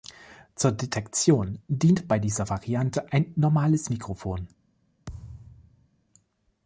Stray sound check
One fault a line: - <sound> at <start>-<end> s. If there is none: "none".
- thud at 5.1-5.9 s